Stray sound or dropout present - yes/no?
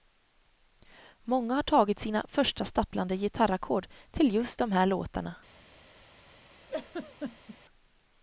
yes